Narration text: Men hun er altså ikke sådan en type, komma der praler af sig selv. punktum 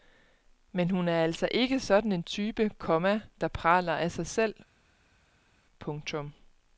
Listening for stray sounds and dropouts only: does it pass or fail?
pass